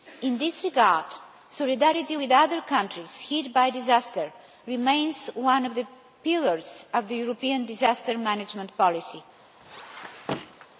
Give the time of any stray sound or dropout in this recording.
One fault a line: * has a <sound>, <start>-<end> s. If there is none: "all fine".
* has a squeak, 9.6-10.7 s